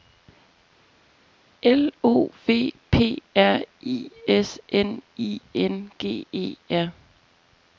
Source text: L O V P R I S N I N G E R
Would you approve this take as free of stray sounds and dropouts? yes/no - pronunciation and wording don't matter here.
yes